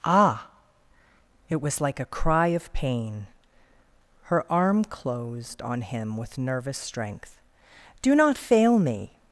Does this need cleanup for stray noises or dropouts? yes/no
no